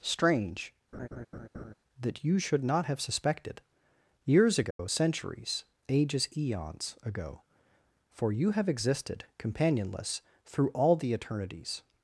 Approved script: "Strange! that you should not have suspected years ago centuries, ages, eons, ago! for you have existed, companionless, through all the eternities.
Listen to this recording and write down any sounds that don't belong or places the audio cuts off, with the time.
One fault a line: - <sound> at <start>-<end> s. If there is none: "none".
- laugh at 0.9-1.7 s
- dropout at 4.7-4.8 s